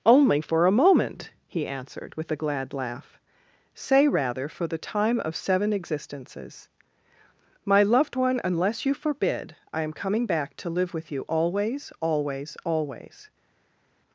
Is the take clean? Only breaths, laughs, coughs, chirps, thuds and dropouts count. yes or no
yes